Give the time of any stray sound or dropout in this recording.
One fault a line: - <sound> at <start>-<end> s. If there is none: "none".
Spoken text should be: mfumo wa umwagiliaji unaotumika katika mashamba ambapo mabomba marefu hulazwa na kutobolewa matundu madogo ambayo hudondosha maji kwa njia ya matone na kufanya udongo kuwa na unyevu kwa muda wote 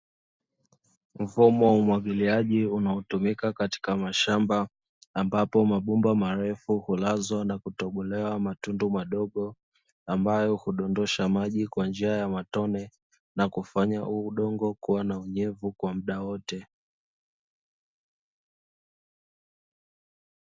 none